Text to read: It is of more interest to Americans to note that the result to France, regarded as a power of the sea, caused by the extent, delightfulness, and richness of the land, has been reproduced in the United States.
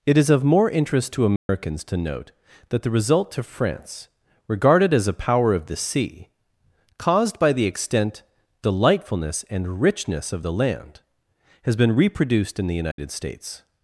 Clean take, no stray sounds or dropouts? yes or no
no